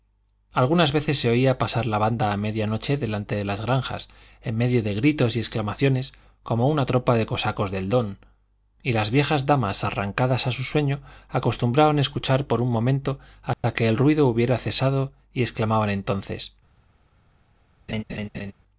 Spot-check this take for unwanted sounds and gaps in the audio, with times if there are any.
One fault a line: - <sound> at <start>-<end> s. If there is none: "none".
- dropout at 13.5-13.6 s
- laugh at 17.9-18.5 s